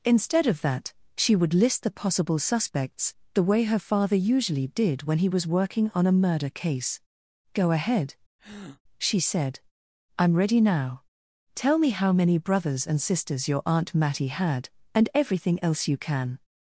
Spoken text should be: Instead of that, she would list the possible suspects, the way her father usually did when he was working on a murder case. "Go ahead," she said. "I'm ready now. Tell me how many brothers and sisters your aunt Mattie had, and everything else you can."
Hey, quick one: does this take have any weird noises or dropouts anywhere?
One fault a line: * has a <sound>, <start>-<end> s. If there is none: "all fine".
* has a breath, 8.4-8.8 s